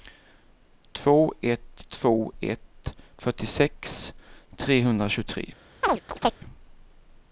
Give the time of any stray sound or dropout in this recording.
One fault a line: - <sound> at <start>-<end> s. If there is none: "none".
- chirp at 5.8-6.4 s